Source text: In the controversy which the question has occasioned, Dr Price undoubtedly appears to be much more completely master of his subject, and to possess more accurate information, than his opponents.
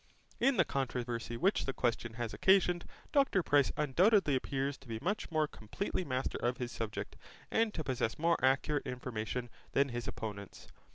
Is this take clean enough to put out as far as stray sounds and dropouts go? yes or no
yes